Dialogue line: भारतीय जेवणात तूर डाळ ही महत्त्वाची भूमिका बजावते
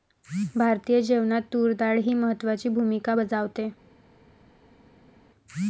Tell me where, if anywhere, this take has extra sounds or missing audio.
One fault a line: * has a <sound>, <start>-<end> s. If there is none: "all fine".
all fine